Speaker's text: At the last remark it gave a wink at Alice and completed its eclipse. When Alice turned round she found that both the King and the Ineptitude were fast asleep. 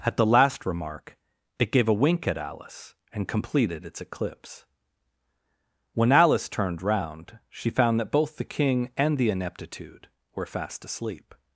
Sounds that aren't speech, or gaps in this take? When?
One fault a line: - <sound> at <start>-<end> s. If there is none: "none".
none